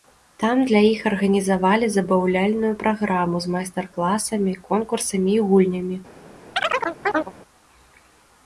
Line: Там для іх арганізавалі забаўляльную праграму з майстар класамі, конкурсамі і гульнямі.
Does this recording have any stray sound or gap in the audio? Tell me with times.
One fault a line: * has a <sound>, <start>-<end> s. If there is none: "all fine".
* has a chirp, 6.6-7.3 s